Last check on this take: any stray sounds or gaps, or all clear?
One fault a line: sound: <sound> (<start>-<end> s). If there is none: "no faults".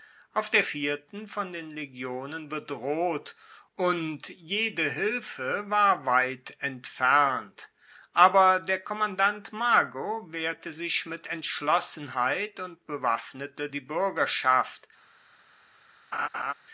sound: laugh (16.1-16.5 s)